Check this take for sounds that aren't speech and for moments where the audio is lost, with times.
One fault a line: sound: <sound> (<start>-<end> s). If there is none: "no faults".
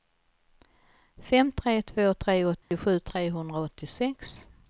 sound: dropout (2.6-2.7 s)